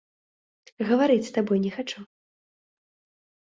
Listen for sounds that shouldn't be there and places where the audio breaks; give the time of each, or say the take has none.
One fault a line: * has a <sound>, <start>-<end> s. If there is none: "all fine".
all fine